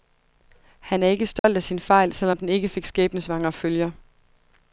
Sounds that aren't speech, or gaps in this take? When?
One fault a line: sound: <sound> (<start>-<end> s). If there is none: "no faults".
sound: dropout (1.4-1.4 s)